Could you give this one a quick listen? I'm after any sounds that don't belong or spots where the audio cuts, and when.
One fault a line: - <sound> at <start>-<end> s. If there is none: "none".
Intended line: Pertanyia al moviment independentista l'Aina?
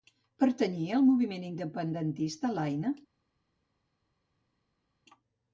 none